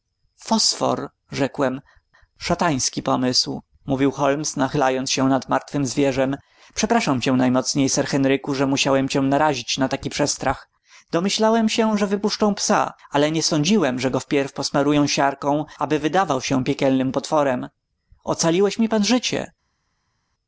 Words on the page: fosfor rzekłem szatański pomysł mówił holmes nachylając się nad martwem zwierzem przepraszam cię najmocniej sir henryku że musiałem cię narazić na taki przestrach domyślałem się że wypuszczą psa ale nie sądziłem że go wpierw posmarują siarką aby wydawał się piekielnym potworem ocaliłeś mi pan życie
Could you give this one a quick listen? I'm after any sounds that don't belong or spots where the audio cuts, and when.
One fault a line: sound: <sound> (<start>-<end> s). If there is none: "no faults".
no faults